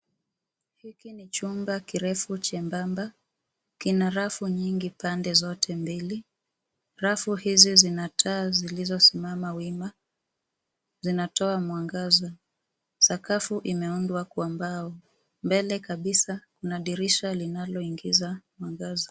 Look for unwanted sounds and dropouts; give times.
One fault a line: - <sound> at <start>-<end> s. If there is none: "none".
none